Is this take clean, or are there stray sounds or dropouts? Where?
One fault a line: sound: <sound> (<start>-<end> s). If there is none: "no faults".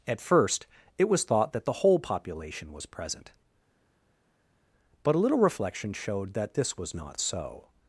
no faults